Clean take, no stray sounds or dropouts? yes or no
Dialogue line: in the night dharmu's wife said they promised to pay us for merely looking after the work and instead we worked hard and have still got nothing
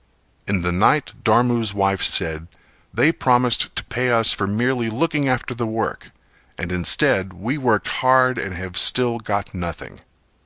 yes